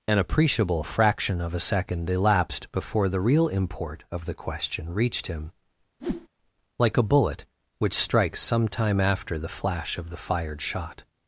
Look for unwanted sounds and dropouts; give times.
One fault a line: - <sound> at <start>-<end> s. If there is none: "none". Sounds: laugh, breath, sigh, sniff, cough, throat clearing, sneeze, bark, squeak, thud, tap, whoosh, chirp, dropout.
- whoosh at 6.0-6.3 s